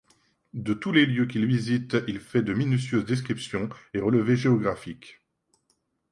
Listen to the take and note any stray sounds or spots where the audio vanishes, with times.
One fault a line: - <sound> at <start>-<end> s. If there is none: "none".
none